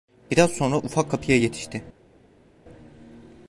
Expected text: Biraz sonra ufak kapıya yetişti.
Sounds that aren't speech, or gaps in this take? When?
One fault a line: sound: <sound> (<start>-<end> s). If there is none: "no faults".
no faults